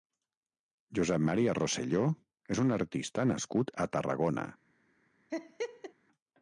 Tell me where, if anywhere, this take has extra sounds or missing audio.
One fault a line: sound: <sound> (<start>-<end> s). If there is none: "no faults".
sound: laugh (5.3-5.9 s)